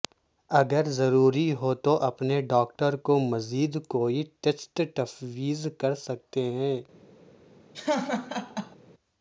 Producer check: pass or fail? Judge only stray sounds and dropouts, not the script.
fail